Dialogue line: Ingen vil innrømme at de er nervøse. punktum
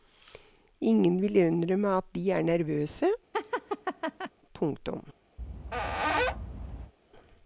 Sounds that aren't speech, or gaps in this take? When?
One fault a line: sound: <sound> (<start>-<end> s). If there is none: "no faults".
sound: laugh (3.3-4.3 s)
sound: squeak (5.4-6.9 s)